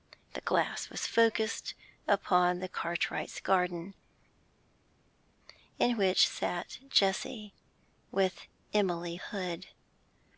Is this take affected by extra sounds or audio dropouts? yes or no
no